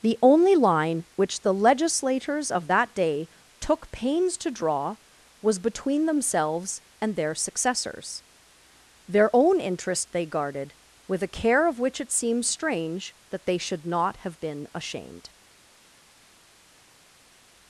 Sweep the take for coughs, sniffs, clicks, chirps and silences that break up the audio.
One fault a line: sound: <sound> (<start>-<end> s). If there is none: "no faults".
no faults